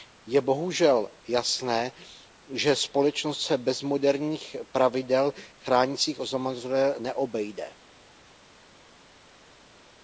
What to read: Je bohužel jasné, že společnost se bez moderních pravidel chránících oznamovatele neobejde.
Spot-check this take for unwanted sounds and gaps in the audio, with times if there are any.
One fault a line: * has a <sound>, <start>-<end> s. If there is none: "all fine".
all fine